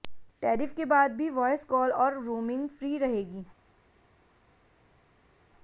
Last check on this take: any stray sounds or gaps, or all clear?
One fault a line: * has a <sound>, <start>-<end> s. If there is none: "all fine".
all fine